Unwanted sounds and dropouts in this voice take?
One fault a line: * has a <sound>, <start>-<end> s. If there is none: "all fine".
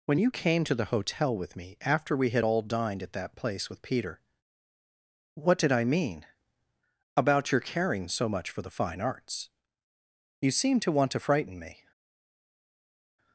all fine